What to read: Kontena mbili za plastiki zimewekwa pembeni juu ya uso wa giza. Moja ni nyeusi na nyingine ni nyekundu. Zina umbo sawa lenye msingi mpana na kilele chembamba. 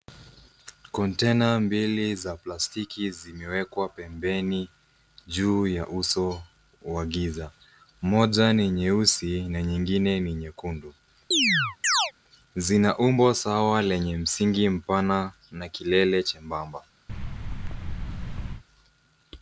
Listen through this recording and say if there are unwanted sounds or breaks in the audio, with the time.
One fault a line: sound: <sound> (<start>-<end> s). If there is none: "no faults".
sound: chirp (11.3-12.1 s)
sound: thud (17.1-18.6 s)